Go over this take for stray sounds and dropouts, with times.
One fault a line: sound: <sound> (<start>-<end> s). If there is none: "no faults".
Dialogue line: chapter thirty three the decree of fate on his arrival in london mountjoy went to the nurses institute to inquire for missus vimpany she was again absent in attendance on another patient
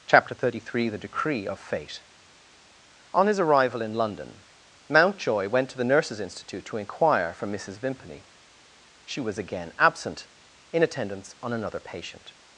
no faults